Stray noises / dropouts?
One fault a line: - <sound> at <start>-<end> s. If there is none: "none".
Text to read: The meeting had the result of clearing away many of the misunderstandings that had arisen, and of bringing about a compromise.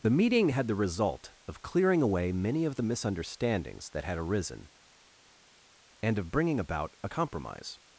none